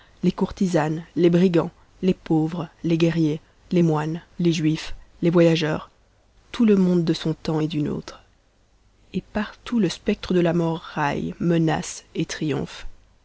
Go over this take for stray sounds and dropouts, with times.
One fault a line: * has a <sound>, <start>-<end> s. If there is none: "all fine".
all fine